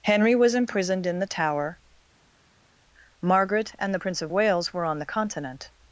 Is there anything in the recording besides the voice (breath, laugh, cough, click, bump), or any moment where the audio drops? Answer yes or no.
no